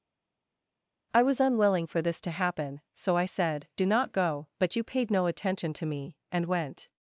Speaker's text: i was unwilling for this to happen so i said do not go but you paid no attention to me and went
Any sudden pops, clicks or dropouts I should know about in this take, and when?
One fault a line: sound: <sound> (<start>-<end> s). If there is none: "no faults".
no faults